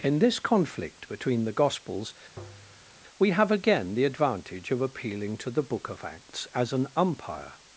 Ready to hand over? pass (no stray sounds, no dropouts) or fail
fail